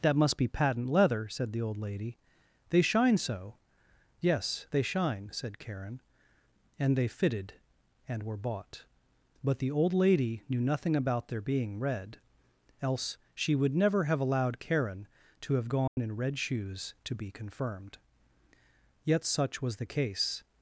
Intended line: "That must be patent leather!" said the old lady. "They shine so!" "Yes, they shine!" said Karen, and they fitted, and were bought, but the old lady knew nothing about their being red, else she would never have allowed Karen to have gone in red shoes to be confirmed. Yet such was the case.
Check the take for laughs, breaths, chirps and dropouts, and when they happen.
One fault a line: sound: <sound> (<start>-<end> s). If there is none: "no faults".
sound: dropout (15.9-16.0 s)